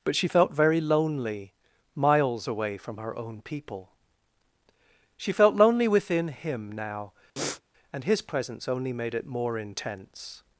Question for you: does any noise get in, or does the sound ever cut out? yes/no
yes